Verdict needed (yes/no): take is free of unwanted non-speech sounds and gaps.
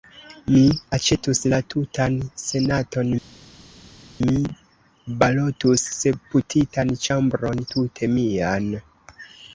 yes